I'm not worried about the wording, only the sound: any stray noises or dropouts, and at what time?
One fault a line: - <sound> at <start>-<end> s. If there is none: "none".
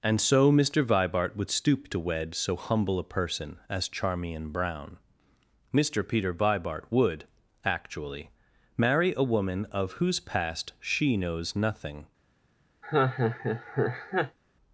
- laugh at 12.8-14.4 s